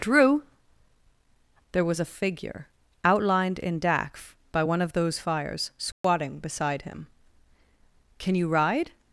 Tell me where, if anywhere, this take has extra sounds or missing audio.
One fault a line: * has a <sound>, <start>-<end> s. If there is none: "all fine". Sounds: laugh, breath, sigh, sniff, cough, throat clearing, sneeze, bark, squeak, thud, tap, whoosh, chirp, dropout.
* has a dropout, 5.9-6.0 s